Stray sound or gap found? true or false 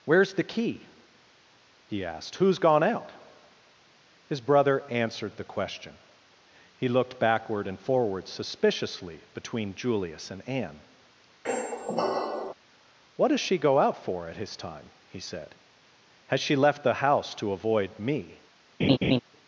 true